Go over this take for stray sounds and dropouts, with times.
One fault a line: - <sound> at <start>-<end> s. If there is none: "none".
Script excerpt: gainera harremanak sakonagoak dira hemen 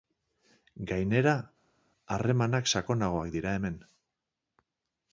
none